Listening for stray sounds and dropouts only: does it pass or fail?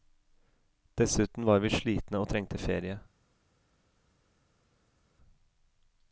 pass